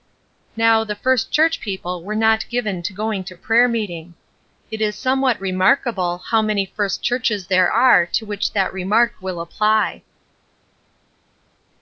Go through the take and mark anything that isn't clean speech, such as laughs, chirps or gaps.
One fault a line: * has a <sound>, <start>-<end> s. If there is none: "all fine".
all fine